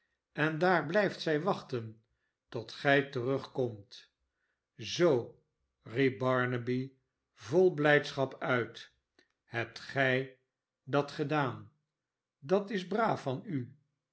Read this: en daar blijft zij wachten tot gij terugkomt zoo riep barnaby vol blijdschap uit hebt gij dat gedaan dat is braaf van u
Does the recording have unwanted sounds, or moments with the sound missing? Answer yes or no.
no